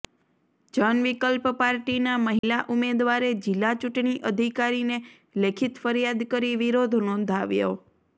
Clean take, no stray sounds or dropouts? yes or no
no